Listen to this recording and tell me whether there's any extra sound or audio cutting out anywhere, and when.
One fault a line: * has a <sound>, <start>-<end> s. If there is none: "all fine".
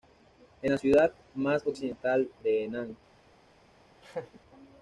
* has a laugh, 4.0-4.4 s